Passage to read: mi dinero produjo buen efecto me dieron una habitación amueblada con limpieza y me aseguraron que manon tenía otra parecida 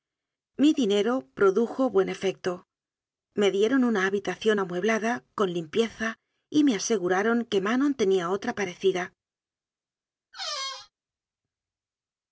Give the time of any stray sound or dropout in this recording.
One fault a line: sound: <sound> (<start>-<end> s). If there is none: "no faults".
sound: squeak (10.3-10.9 s)